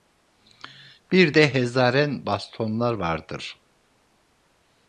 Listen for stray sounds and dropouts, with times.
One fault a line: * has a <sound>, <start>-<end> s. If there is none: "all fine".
all fine